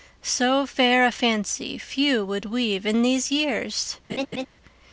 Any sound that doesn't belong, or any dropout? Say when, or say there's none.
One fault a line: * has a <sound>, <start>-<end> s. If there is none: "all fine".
* has a laugh, 4.1-4.5 s